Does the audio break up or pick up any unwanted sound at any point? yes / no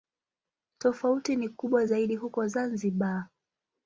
no